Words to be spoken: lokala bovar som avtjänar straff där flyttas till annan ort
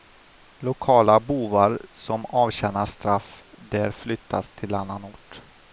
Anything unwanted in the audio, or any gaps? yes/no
no